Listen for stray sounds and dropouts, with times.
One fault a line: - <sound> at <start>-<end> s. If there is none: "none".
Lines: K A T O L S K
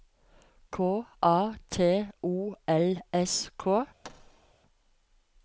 - thud at 4.0-4.5 s